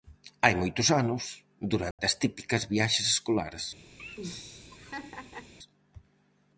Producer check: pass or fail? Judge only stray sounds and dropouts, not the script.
fail